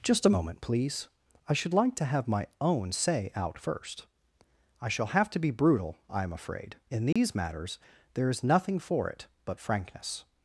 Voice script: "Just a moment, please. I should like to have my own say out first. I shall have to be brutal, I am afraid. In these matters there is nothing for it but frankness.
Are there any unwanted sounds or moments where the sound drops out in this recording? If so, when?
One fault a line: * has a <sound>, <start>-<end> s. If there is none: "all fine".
* has a dropout, 7.1-7.2 s